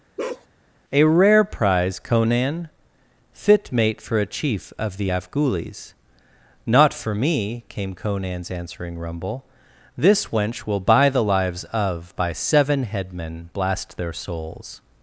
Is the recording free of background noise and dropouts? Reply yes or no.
no